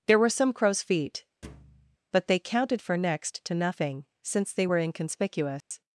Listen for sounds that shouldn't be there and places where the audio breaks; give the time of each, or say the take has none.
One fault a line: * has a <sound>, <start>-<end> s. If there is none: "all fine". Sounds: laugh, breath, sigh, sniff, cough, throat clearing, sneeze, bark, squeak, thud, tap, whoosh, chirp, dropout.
* has a thud, 1.4-2.0 s
* has a dropout, 5.6-5.7 s